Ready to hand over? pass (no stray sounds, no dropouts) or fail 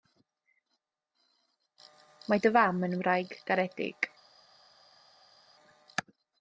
pass